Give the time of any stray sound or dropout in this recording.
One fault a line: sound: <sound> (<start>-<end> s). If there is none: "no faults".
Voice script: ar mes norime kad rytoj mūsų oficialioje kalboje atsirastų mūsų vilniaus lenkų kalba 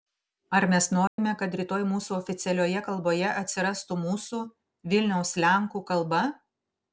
sound: dropout (1.1-1.2 s)